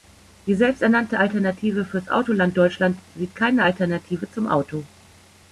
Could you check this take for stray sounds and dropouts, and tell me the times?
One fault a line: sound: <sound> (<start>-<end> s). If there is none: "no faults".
no faults